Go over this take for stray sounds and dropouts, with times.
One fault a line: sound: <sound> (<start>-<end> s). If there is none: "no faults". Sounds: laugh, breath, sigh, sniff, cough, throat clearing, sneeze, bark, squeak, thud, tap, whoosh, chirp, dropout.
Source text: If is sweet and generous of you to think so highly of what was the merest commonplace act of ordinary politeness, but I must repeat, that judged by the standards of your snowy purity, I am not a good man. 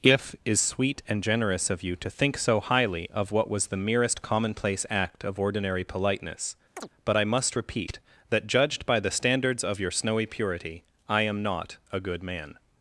sound: chirp (6.8-6.9 s)